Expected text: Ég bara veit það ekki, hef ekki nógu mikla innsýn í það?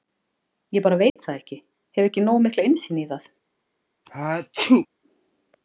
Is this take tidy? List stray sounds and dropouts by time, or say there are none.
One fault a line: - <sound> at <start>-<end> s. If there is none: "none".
- dropout at 1.1-1.2 s
- sneeze at 4.0-4.9 s